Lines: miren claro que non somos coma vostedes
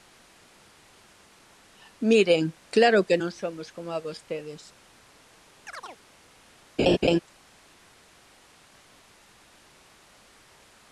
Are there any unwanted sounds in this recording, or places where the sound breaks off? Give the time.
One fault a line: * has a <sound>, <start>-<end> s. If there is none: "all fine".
* has a chirp, 5.7-6.0 s
* has a laugh, 6.8-7.2 s